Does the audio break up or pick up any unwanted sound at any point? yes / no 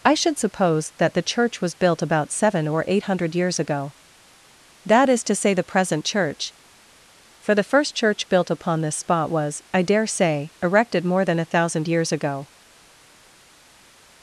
no